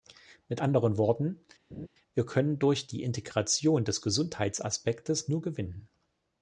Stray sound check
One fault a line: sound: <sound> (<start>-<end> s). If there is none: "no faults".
sound: laugh (1.7-1.9 s)